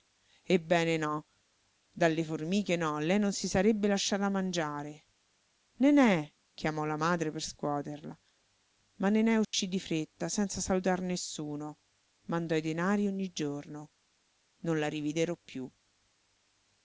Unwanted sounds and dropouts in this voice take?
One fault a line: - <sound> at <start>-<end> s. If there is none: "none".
- dropout at 9.4-9.5 s